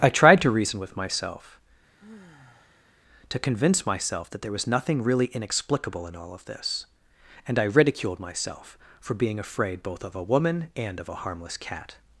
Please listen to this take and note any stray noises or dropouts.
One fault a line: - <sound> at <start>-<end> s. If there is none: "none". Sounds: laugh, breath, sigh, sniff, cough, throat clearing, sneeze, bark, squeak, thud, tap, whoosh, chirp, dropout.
- sigh at 2.0-2.9 s